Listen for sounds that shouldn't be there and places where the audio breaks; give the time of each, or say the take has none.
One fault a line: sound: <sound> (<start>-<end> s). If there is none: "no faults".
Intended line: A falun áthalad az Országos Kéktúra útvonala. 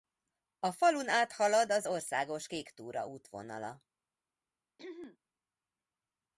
sound: throat clearing (4.8-5.2 s)